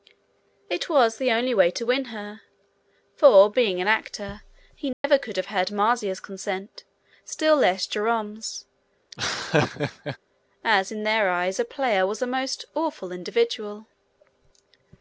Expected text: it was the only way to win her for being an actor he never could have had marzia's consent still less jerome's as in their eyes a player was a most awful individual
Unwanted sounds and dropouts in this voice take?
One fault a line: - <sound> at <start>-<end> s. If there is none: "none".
- dropout at 4.9-5.0 s
- laugh at 9.1-10.2 s